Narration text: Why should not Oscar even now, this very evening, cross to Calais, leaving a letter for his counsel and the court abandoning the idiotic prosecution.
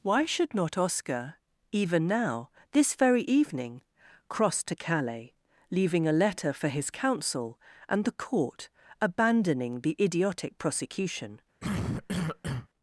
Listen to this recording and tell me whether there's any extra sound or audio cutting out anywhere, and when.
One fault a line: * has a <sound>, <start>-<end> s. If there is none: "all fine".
* has a cough, 11.6-12.7 s